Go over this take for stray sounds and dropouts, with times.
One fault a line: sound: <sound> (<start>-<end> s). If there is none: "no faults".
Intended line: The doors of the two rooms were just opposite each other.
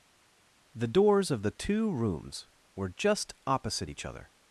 no faults